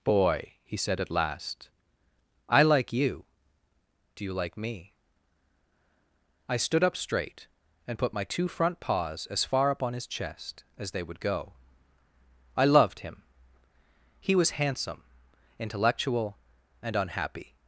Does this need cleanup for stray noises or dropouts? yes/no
no